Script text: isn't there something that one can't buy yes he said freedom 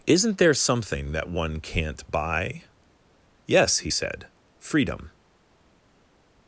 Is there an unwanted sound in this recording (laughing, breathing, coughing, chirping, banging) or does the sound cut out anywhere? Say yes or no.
no